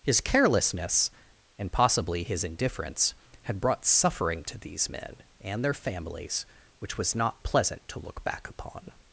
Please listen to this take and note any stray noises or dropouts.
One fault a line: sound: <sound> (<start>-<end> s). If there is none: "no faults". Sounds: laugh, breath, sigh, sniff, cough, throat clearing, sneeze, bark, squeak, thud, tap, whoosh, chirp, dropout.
no faults